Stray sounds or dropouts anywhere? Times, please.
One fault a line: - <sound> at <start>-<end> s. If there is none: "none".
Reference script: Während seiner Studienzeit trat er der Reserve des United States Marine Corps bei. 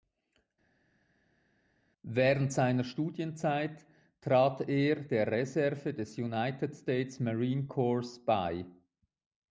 none